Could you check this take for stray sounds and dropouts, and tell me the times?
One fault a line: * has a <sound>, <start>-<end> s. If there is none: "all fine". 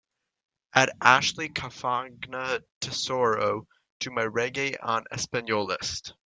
all fine